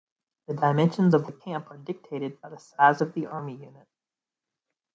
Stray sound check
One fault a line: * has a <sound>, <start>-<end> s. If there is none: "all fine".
all fine